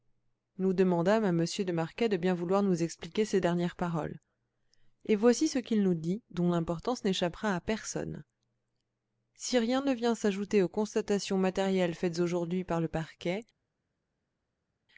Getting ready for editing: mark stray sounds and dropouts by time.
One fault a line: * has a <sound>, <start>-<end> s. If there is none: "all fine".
all fine